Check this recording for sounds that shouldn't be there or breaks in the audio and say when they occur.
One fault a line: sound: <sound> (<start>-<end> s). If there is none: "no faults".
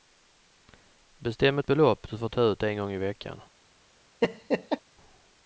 sound: laugh (4.2-4.8 s)